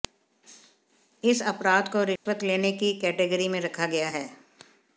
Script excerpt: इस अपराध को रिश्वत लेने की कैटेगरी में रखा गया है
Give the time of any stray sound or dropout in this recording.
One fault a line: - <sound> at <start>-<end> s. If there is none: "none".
- dropout at 2.2-2.3 s